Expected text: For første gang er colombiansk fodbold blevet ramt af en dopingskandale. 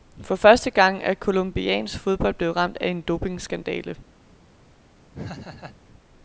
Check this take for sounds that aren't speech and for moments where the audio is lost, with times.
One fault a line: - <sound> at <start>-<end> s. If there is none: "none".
- laugh at 5.1-5.8 s